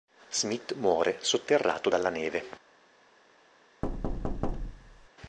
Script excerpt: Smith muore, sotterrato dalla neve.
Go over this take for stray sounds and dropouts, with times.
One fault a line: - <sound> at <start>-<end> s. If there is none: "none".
- thud at 3.8-5.1 s